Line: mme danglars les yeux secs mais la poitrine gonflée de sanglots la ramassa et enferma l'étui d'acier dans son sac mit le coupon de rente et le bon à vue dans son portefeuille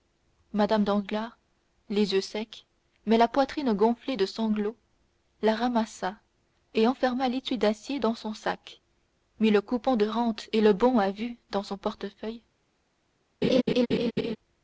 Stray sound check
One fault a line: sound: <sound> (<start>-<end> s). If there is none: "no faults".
sound: laugh (13.4-14.4 s)